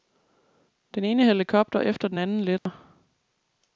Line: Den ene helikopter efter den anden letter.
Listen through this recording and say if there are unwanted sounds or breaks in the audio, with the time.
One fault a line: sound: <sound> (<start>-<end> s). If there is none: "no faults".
sound: dropout (2.6-2.7 s)